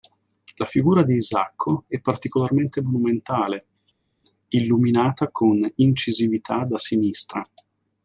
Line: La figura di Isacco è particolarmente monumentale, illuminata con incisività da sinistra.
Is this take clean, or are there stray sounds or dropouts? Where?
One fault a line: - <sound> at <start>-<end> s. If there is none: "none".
none